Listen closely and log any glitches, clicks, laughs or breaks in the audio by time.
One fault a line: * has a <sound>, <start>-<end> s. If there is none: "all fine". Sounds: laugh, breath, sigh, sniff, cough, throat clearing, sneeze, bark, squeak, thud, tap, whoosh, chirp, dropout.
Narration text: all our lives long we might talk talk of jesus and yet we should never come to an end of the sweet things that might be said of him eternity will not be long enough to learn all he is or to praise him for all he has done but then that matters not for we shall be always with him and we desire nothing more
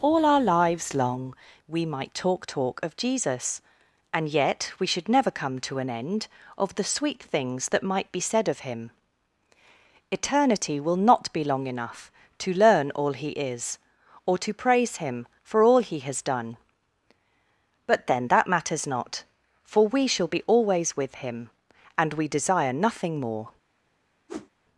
* has a whoosh, 24.3-24.5 s